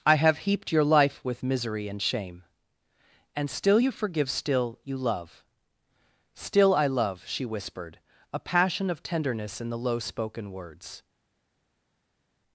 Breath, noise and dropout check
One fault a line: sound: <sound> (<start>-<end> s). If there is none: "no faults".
no faults